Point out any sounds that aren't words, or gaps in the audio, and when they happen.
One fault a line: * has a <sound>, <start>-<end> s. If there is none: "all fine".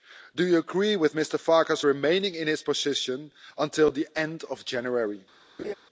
* has a laugh, 5.6-5.7 s